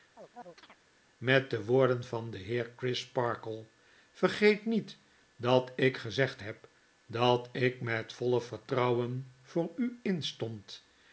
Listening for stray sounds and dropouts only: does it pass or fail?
fail